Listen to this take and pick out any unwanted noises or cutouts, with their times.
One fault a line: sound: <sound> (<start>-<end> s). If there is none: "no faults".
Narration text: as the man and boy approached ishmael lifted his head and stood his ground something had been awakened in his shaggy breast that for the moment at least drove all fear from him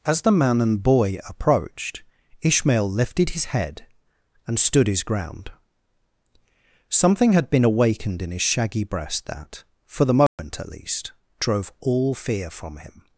sound: dropout (10.3-10.4 s)